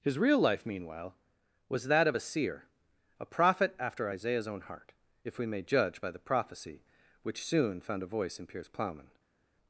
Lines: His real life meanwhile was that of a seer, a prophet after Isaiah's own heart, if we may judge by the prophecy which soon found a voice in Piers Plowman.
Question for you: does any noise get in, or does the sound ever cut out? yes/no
no